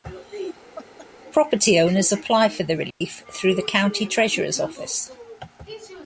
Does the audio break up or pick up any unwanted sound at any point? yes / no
yes